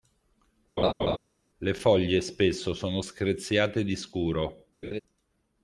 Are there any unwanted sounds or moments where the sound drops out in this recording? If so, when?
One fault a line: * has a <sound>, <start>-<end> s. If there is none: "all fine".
* has a laugh, 0.8-1.2 s
* has a laugh, 4.8-5.0 s